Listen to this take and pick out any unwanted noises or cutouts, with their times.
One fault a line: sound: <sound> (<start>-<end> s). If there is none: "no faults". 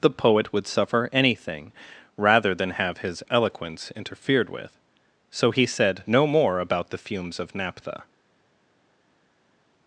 no faults